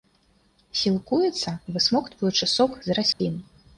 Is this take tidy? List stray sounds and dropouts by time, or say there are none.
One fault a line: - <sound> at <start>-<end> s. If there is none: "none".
- dropout at 3.1-3.2 s